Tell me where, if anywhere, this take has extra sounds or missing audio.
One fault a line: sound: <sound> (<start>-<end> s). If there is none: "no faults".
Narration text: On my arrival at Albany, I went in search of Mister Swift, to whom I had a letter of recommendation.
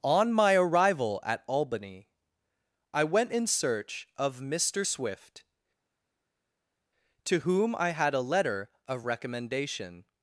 no faults